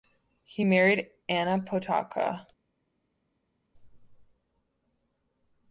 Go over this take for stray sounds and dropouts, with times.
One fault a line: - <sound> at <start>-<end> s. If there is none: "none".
none